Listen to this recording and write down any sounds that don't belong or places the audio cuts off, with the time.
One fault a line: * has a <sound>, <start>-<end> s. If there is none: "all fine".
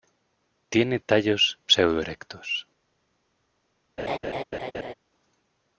* has a laugh, 4.0-4.9 s